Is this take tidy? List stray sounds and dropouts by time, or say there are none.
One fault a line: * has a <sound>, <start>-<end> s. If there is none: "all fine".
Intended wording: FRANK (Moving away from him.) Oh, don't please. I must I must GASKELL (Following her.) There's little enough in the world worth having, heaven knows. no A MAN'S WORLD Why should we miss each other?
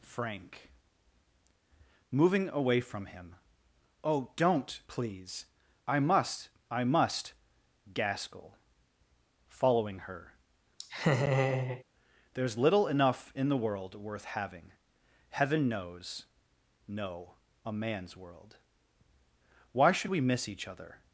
* has a laugh, 10.8-11.8 s